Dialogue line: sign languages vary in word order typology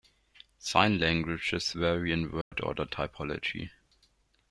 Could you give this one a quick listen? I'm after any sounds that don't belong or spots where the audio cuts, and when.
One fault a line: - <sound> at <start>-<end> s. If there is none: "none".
- dropout at 2.4-2.5 s